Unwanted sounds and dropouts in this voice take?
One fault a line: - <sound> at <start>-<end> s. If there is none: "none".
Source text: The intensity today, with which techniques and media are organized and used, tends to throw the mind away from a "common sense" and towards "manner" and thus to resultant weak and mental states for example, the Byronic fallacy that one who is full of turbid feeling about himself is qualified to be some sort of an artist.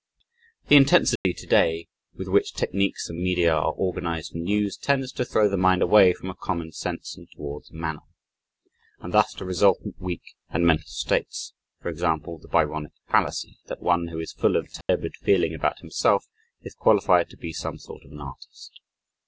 - dropout at 1.2-1.3 s
- dropout at 14.8-14.9 s